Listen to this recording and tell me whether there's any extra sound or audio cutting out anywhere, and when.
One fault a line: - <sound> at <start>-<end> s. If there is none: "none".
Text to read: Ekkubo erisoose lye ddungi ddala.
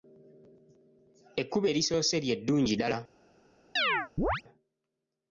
- chirp at 3.8-4.4 s